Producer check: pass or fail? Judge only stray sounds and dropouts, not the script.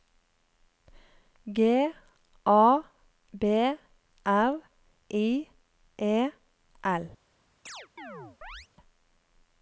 fail